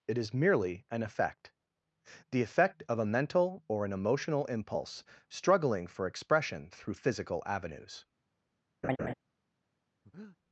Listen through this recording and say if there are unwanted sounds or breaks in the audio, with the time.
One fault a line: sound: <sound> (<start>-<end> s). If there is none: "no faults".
sound: laugh (8.8-9.1 s)
sound: breath (10.0-10.4 s)